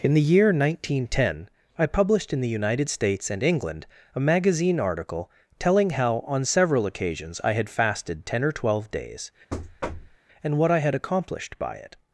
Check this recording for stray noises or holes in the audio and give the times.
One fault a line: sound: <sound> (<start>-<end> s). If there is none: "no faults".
sound: thud (9.5-10.2 s)